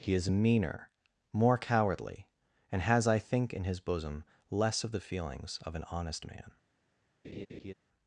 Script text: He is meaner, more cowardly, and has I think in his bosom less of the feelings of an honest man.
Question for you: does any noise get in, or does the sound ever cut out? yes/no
yes